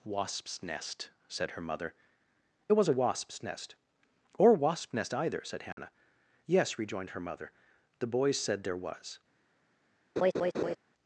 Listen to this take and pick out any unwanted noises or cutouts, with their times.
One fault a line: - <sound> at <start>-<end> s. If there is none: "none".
- dropout at 5.7-5.8 s
- laugh at 10.2-10.8 s